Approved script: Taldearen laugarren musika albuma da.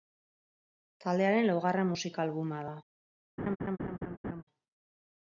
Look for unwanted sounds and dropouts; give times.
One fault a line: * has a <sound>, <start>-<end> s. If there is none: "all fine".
* has a laugh, 3.4-4.4 s